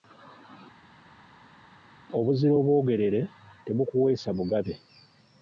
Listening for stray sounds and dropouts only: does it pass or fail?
pass